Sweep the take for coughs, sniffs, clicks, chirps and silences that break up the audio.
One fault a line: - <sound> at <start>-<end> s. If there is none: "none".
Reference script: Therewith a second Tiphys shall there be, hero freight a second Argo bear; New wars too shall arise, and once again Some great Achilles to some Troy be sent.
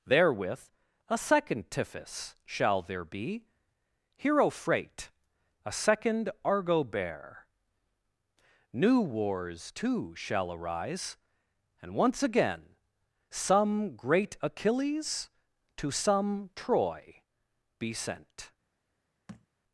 - thud at 19.3-19.5 s